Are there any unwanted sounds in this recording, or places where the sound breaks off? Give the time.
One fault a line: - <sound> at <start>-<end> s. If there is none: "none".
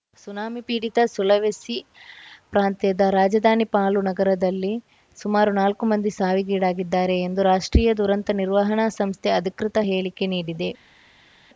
none